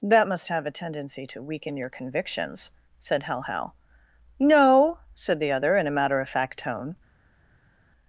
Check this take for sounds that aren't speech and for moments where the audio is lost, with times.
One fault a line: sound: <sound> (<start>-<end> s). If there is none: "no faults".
no faults